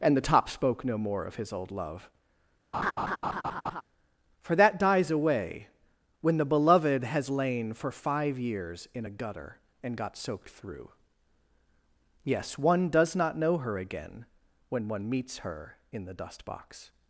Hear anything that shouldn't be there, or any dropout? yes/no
yes